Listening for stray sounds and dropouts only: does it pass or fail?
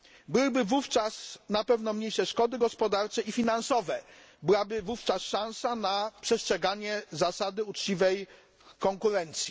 pass